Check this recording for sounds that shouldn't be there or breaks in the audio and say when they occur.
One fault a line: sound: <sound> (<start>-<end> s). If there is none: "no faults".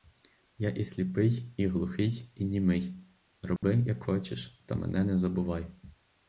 sound: dropout (3.6-3.6 s)